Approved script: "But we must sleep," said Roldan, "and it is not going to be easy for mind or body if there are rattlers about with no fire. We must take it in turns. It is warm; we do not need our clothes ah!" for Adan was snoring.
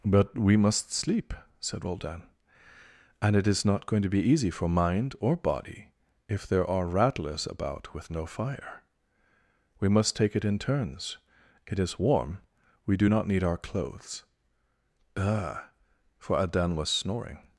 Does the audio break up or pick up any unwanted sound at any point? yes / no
no